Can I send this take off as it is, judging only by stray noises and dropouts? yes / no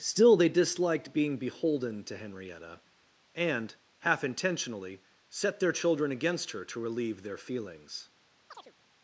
no